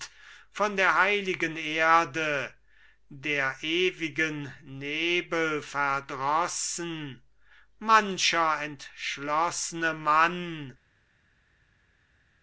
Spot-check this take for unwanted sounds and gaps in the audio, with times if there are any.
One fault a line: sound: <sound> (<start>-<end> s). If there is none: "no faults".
no faults